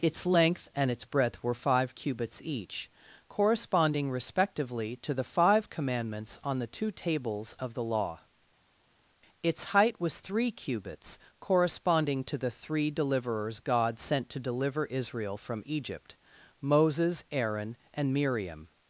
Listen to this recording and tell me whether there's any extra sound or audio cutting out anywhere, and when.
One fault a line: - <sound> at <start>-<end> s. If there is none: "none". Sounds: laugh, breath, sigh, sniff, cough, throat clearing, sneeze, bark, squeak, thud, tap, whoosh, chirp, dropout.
none